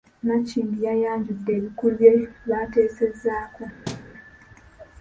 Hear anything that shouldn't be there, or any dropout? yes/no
yes